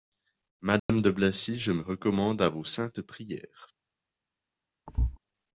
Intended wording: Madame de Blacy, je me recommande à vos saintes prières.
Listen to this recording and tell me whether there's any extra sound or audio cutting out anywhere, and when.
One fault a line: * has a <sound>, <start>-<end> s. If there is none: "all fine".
* has a dropout, 0.8-0.9 s
* has a thud, 4.9-5.2 s